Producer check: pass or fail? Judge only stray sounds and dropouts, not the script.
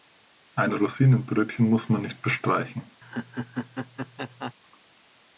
fail